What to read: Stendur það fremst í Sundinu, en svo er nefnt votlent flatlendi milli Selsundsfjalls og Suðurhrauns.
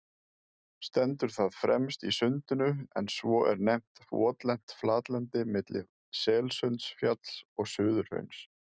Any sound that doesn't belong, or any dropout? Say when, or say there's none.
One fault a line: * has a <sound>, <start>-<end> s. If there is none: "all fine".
all fine